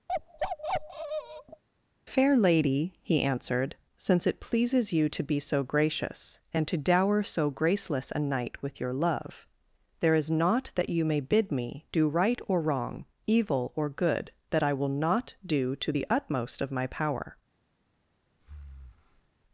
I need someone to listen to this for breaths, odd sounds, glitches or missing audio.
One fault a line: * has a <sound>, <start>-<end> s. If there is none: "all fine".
* has a bark, 0.1-1.6 s
* has a breath, 18.4-19.3 s